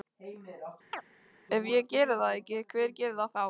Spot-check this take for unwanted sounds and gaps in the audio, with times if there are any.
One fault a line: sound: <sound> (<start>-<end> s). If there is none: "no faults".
sound: chirp (0.9-1.0 s)